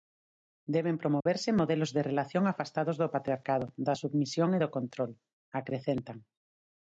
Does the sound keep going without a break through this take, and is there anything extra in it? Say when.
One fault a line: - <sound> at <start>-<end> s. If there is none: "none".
- dropout at 1.2-1.3 s